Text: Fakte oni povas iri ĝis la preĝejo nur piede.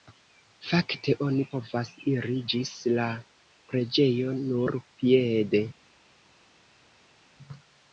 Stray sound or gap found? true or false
false